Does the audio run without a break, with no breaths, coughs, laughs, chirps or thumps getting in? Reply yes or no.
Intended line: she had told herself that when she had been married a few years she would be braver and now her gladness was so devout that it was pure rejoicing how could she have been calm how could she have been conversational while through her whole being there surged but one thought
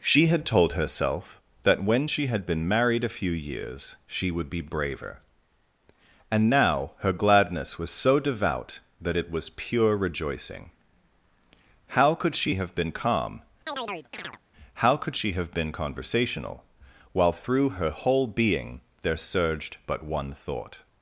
no